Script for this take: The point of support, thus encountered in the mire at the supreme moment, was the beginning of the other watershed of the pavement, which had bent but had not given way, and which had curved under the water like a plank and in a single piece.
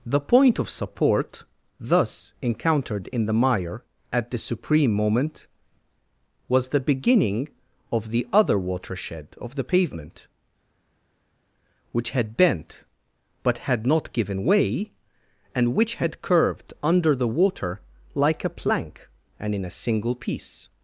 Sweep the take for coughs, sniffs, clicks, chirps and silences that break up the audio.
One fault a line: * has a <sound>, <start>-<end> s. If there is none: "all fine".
all fine